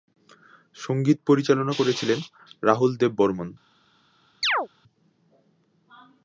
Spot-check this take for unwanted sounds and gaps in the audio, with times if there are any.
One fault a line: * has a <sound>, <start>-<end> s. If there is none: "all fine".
* has a chirp, 4.4-4.7 s